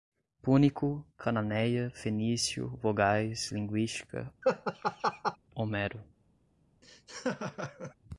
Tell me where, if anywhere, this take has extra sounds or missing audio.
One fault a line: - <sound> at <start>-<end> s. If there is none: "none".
- laugh at 4.4-5.4 s
- laugh at 6.8-8.0 s